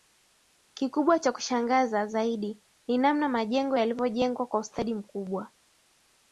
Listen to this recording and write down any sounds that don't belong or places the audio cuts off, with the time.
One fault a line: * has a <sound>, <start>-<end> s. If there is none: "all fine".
all fine